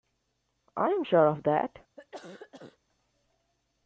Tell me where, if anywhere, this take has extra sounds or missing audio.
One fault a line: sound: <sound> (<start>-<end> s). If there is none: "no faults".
sound: cough (2.0-2.8 s)